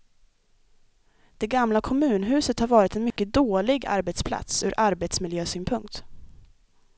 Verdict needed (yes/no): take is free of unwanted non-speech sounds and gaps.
no